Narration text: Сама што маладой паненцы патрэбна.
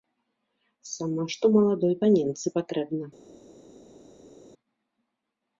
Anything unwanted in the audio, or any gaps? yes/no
no